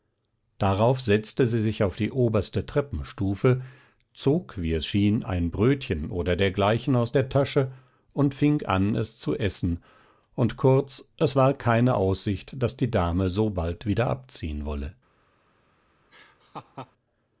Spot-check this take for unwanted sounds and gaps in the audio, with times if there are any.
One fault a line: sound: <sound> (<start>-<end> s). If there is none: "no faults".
sound: laugh (16.1-16.9 s)